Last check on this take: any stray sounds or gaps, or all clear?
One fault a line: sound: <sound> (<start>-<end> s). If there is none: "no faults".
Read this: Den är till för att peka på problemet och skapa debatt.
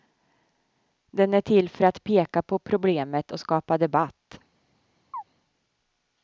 sound: chirp (5.1-5.2 s)